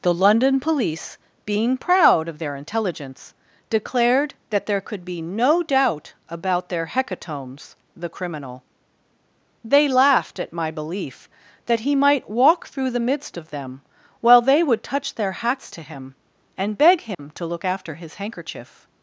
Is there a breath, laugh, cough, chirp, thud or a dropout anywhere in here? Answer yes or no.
yes